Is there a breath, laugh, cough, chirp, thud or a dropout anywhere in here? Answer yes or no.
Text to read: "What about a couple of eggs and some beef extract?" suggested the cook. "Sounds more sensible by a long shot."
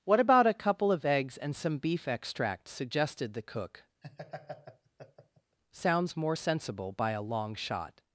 yes